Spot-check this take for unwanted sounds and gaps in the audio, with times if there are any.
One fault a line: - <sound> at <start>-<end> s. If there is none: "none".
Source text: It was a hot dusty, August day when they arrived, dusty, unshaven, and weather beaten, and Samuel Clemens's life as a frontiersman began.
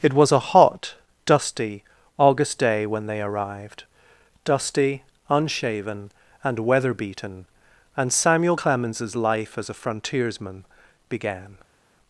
none